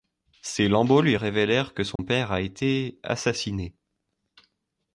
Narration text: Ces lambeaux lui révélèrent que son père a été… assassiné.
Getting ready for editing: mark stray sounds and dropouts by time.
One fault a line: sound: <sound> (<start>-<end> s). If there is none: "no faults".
sound: dropout (2.0-2.0 s)